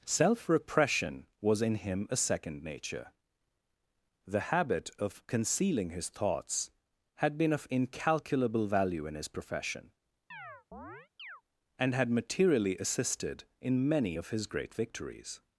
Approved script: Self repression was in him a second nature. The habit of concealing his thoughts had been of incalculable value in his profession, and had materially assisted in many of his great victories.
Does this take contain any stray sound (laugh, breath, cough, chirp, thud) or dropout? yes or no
yes